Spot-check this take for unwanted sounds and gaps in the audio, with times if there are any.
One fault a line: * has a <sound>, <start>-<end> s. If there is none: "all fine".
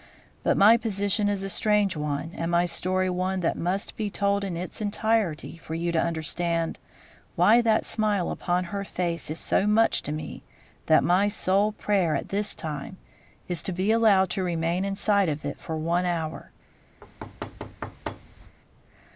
* has a thud, 17.0-18.6 s